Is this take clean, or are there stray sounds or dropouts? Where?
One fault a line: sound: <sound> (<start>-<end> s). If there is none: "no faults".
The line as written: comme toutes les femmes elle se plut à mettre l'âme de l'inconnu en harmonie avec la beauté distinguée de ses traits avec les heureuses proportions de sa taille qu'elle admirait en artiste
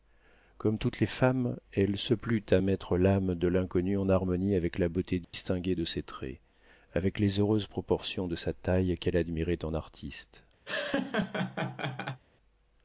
sound: dropout (5.2-5.3 s)
sound: laugh (10.7-12.2 s)